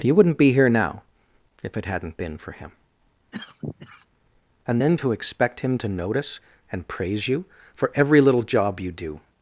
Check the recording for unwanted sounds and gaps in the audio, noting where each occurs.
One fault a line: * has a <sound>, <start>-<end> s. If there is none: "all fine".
* has a cough, 3.3-4.1 s